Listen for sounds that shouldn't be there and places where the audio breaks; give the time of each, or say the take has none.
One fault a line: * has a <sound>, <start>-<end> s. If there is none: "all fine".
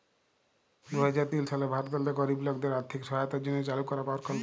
all fine